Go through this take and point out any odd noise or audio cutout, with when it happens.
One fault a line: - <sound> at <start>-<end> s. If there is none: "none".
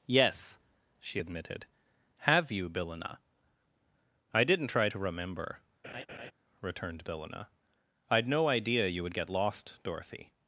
- laugh at 5.8-6.3 s